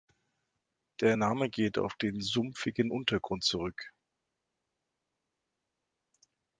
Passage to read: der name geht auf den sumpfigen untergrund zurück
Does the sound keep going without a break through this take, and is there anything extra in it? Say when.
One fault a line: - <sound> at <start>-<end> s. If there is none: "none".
none